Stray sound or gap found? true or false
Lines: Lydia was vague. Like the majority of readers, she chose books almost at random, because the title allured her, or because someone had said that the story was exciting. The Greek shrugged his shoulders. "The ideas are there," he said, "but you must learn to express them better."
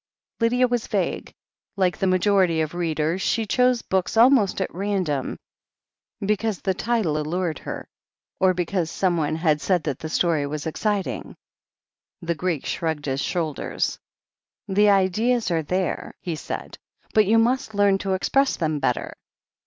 false